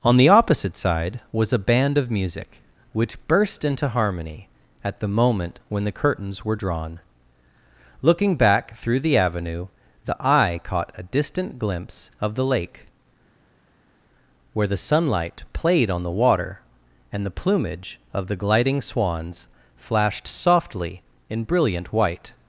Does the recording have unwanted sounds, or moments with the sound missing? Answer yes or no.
no